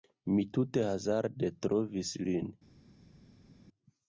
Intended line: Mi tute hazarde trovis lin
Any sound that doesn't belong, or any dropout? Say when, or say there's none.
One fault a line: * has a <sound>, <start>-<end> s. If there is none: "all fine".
all fine